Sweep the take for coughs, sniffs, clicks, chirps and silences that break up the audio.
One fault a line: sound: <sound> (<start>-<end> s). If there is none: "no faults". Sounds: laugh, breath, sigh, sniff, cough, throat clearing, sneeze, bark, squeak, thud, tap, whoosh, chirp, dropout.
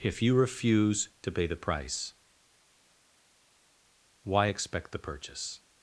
no faults